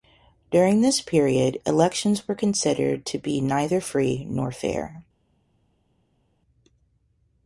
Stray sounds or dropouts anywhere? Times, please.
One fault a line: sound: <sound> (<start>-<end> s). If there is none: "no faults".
no faults